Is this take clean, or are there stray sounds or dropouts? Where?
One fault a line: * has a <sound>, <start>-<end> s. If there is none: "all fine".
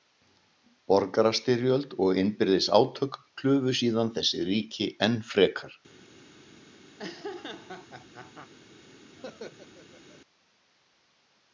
* has a laugh, 7.0-8.5 s
* has a laugh, 9.2-10.2 s